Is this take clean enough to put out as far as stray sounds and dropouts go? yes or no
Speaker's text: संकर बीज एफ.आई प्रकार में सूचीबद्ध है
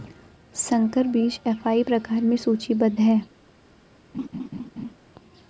no